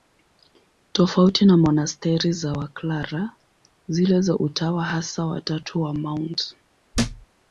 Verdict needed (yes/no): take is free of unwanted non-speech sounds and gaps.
no